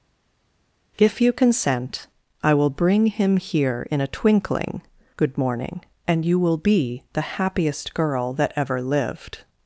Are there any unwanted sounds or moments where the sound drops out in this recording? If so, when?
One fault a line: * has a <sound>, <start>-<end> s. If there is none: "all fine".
all fine